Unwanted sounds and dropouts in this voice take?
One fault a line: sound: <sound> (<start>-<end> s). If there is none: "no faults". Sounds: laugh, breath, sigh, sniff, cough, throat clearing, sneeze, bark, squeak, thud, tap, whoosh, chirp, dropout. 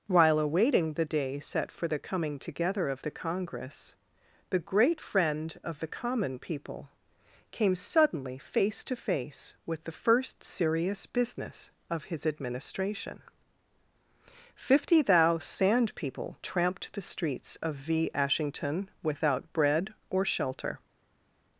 no faults